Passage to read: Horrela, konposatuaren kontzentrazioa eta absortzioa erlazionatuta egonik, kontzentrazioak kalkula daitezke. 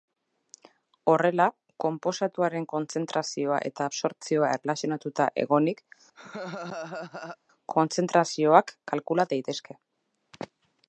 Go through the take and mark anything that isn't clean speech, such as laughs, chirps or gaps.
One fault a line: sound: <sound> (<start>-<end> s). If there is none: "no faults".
sound: laugh (6.1-7.4 s)